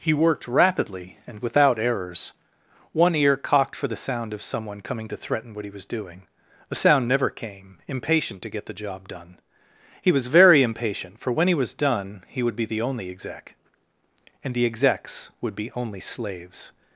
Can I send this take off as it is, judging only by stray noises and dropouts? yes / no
yes